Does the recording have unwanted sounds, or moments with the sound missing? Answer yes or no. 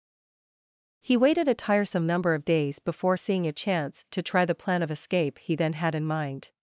no